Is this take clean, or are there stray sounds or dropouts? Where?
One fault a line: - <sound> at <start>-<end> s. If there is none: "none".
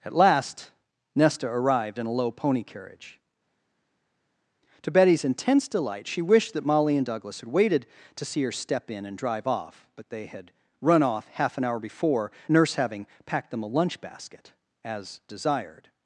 none